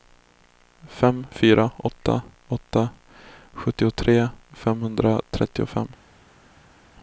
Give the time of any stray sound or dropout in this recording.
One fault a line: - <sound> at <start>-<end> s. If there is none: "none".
none